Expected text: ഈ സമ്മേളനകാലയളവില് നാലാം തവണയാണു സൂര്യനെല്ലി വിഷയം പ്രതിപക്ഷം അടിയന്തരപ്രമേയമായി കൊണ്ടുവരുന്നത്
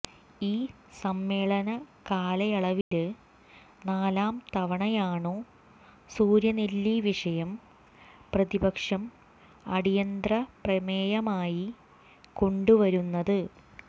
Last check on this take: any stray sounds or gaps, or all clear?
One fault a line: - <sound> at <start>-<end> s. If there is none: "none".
- dropout at 2.8-2.9 s